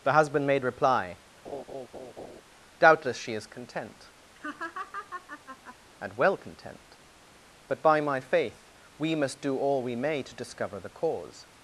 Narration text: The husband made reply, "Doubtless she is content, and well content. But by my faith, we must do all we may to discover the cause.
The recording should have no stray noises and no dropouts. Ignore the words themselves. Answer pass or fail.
fail